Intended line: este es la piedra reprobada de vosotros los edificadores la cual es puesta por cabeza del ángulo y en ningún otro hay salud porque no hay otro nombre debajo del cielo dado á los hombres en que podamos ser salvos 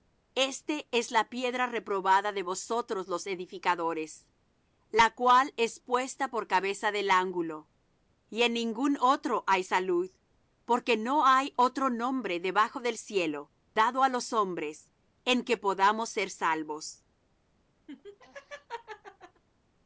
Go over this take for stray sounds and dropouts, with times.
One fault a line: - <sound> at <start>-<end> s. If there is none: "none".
- laugh at 17.9-19.4 s